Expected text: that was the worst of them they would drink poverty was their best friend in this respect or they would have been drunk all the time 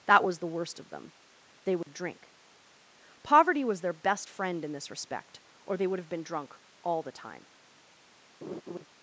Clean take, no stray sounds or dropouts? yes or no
no